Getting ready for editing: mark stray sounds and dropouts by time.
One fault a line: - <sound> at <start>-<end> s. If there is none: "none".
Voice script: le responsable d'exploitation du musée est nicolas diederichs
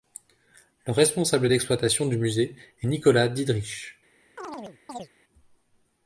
- chirp at 4.4-5.1 s